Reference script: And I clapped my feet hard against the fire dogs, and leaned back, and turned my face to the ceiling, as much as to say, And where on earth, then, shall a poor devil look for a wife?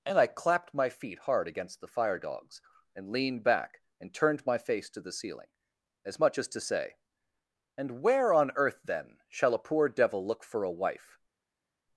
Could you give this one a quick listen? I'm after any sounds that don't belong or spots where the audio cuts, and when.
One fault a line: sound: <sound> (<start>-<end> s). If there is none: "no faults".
no faults